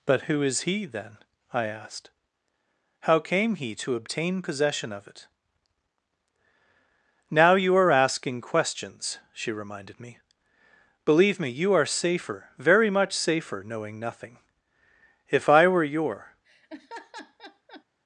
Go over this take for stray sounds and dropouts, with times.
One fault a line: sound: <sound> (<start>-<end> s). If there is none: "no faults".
sound: laugh (16.4-17.8 s)